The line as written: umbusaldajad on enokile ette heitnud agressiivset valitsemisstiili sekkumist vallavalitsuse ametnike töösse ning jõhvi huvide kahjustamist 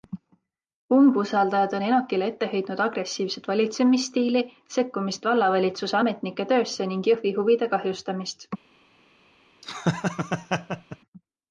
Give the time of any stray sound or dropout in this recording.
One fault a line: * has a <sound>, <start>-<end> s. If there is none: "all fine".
* has a laugh, 9.6-11.0 s